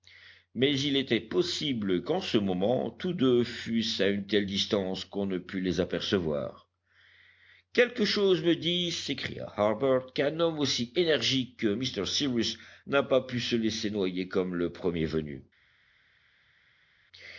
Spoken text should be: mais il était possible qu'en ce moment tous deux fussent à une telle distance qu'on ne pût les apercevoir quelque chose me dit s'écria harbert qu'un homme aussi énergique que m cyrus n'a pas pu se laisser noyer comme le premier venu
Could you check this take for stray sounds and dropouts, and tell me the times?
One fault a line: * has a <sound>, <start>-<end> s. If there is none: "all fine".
all fine